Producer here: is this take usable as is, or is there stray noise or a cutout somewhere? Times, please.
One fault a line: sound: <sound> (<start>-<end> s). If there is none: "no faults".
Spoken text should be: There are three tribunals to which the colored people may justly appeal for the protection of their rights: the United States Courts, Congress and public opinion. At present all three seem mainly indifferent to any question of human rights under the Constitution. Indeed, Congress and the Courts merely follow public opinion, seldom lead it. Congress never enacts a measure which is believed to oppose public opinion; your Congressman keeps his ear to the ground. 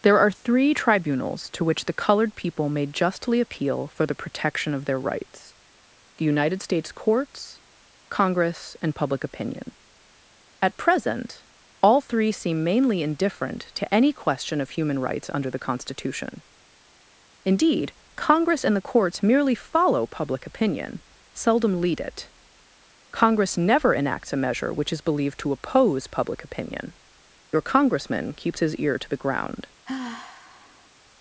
sound: sigh (29.8-30.9 s)